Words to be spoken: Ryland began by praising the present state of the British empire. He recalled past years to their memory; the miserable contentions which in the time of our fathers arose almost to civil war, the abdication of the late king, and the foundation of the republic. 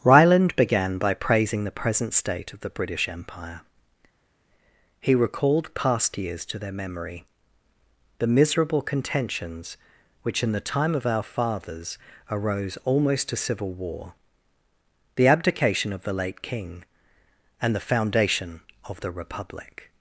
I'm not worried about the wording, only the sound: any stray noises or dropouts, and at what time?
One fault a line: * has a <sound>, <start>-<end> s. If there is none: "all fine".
all fine